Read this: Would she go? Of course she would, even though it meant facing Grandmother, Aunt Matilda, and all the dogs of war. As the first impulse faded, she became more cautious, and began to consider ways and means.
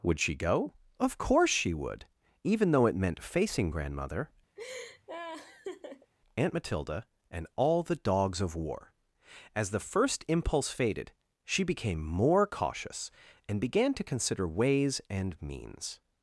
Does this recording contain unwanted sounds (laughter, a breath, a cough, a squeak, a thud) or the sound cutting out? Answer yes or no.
yes